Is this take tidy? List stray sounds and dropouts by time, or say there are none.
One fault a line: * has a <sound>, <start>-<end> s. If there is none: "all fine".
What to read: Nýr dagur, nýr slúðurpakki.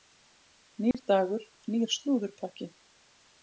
* has a dropout, 0.9-0.9 s